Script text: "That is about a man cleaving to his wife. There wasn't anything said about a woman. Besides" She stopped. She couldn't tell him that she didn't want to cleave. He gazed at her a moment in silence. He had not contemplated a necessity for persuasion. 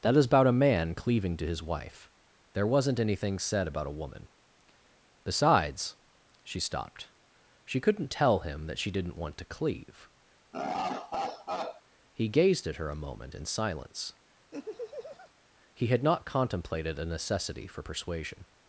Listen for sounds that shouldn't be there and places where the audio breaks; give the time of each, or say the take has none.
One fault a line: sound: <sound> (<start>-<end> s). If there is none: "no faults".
sound: laugh (10.5-11.8 s)
sound: laugh (14.5-15.3 s)